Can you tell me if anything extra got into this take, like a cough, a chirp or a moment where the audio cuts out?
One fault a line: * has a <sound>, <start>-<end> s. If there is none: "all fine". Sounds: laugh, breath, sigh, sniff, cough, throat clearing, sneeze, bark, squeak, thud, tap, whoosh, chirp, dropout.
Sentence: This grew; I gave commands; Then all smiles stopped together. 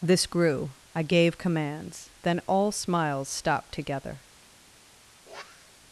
* has a sniff, 5.3-5.8 s